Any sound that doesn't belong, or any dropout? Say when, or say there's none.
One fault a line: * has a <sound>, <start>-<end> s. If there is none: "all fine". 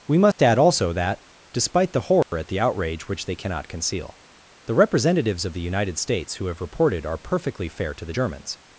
* has a dropout, 0.3-0.4 s
* has a dropout, 2.2-2.3 s